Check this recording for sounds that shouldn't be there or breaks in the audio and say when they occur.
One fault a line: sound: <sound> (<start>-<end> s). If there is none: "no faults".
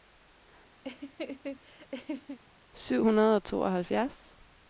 sound: laugh (0.8-2.4 s)